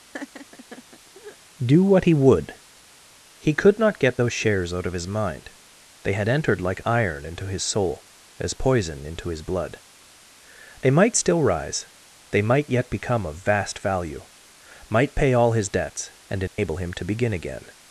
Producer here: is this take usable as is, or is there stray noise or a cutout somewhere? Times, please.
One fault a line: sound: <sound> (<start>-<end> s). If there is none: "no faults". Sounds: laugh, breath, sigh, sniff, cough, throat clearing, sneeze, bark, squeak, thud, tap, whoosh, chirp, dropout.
sound: laugh (0.1-1.4 s)
sound: dropout (16.5-16.6 s)